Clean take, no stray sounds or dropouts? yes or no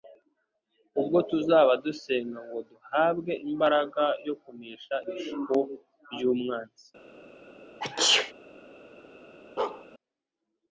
no